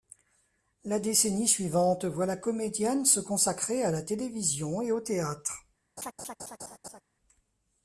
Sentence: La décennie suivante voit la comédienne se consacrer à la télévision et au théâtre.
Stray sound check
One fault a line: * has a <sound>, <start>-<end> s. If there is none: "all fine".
* has a laugh, 6.0-7.0 s